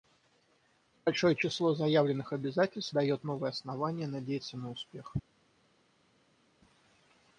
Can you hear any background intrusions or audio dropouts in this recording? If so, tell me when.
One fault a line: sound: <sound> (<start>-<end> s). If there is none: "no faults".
no faults